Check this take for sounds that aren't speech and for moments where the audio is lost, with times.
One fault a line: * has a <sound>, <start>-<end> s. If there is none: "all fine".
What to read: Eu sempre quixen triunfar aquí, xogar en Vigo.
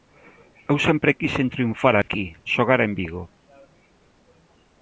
* has a dropout, 2.0-2.1 s